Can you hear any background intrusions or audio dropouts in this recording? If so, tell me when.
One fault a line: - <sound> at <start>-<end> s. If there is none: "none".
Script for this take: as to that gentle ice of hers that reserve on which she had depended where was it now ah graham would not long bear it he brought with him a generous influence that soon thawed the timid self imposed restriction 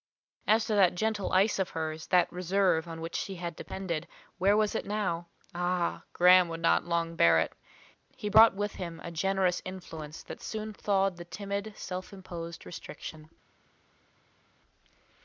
none